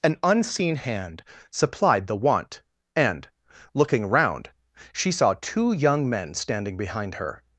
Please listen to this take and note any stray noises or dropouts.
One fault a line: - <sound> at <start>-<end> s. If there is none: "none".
none